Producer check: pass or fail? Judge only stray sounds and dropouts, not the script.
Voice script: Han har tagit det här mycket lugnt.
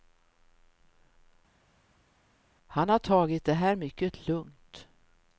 pass